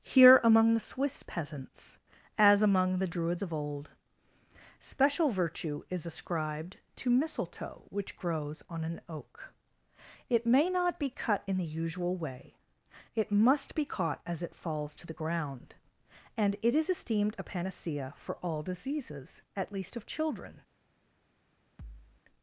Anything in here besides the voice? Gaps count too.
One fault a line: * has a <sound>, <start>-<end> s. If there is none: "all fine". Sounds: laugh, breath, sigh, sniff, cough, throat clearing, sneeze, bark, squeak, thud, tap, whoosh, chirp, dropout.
* has a thud, 21.8-22.2 s